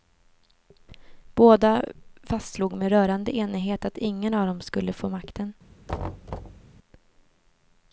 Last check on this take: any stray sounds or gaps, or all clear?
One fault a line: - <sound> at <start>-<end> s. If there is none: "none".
- thud at 5.9-6.7 s